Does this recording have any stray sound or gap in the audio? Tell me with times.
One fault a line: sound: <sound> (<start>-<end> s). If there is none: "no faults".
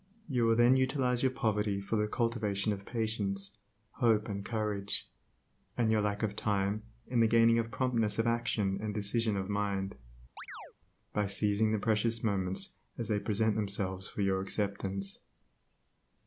sound: chirp (10.4-10.7 s)